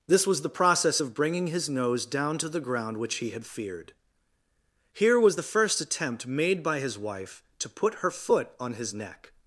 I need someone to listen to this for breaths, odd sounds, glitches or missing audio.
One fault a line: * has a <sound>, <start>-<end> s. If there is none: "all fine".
all fine